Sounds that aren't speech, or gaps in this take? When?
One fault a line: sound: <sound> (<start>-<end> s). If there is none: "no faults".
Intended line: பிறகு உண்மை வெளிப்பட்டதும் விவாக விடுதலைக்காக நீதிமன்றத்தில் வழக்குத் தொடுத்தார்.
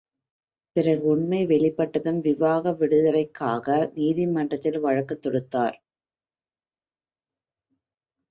no faults